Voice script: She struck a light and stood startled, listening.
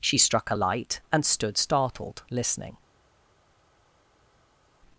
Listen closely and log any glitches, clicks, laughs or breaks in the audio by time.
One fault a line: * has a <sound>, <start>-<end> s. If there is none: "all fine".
all fine